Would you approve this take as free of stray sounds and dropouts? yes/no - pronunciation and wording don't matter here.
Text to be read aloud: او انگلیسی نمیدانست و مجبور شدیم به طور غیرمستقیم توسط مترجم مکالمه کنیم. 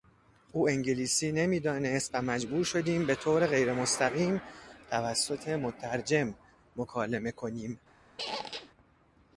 no